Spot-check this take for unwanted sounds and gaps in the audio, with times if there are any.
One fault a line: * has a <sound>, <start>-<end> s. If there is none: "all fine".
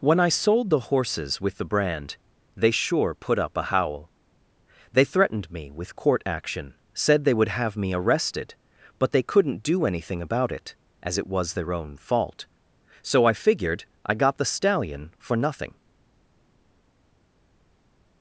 all fine